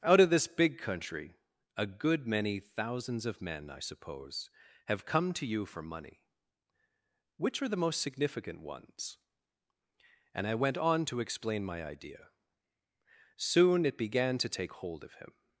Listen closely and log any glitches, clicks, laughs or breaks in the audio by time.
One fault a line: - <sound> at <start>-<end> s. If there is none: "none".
none